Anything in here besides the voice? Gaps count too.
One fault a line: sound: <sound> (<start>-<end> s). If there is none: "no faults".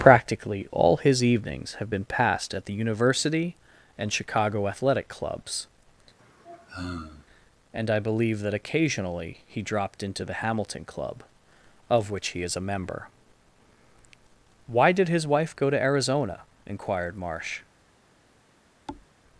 sound: sigh (6.2-7.3 s)
sound: thud (18.9-19.1 s)